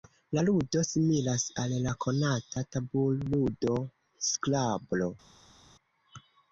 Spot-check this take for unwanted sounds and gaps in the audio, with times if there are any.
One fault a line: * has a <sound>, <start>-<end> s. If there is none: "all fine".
all fine